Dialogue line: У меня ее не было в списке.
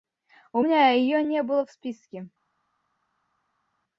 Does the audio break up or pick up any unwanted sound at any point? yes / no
no